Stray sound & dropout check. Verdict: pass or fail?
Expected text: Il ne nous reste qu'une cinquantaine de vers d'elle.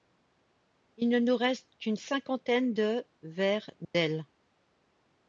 fail